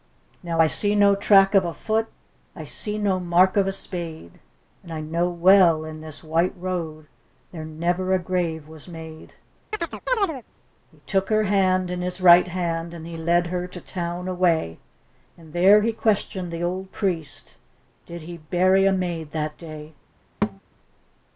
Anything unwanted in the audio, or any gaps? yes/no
yes